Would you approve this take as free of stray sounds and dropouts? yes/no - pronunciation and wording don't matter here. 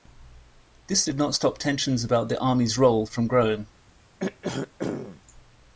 no